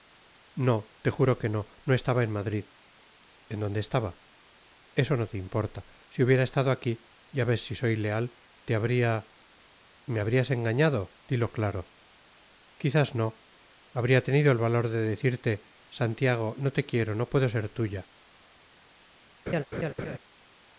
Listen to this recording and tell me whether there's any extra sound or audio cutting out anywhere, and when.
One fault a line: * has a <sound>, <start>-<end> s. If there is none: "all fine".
* has a laugh, 19.5-20.2 s